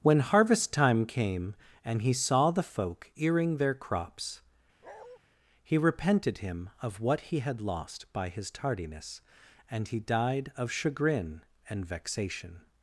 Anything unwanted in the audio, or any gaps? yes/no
yes